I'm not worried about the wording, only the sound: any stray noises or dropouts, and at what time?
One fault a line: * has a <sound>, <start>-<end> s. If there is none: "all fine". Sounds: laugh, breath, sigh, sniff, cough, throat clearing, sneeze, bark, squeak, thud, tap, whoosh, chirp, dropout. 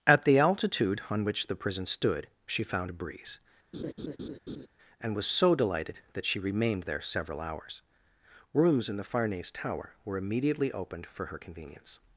* has a laugh, 3.7-4.7 s